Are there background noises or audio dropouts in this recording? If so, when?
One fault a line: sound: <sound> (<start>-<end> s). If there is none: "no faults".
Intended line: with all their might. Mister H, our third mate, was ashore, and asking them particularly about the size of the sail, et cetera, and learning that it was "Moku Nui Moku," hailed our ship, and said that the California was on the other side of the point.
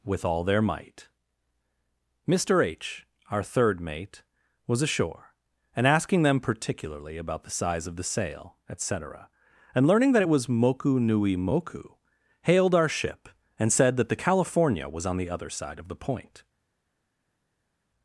no faults